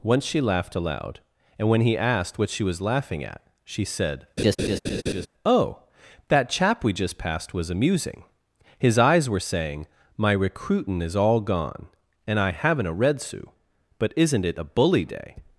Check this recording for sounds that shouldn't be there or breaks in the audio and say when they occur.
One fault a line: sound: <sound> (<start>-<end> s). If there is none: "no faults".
sound: laugh (4.4-5.3 s)